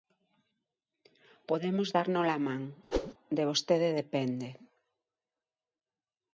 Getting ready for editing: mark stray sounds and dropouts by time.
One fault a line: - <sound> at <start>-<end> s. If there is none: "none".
- whoosh at 2.9-3.1 s